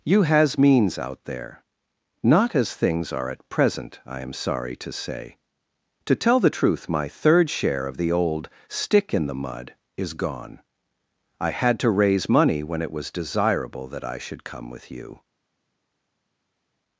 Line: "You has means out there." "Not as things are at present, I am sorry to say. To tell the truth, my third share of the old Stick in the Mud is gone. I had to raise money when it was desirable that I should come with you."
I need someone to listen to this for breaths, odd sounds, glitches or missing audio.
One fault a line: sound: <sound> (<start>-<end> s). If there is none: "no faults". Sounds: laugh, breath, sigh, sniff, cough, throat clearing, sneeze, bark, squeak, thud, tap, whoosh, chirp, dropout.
no faults